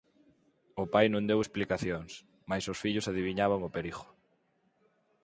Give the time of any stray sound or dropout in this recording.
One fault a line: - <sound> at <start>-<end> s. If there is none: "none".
none